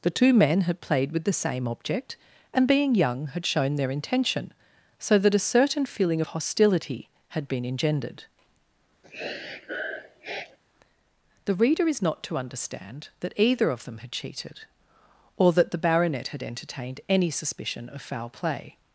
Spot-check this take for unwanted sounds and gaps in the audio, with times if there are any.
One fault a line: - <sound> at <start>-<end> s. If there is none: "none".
- sniff at 9.0-10.6 s